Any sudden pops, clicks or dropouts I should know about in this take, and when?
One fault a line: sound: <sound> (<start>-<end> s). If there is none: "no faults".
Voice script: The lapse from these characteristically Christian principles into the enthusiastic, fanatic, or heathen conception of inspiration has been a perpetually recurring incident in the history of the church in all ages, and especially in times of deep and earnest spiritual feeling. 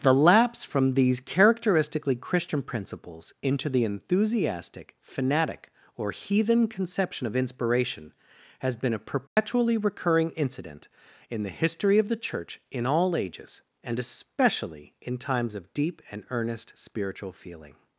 sound: dropout (9.3-9.4 s)